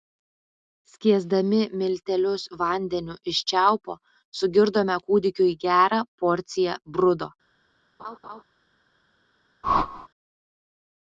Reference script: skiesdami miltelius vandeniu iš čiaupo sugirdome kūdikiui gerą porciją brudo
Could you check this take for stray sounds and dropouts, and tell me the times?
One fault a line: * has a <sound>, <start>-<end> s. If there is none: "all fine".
* has a laugh, 8.0-8.4 s
* has a whoosh, 9.6-10.1 s